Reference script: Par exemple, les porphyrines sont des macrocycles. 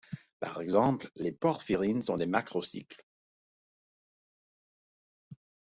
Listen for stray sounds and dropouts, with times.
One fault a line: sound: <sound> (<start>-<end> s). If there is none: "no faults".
no faults